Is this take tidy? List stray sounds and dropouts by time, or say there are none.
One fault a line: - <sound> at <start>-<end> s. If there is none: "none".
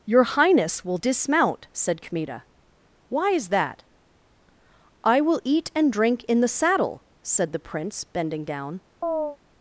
- chirp at 9.0-9.4 s